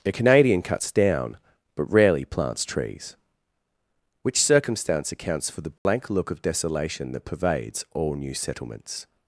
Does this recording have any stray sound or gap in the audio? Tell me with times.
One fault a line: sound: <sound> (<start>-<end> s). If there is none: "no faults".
sound: dropout (5.8-5.9 s)